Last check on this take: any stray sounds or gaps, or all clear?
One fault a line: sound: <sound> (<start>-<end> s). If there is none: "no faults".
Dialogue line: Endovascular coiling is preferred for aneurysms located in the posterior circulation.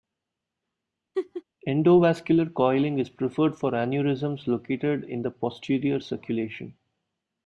sound: laugh (1.1-1.4 s)